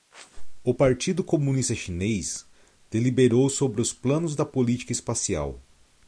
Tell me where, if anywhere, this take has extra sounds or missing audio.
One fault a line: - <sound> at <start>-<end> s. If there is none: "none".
none